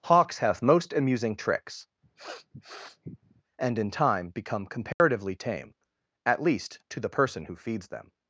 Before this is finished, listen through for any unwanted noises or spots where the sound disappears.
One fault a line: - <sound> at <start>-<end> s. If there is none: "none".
- sniff at 2.0-3.4 s
- dropout at 4.9-5.0 s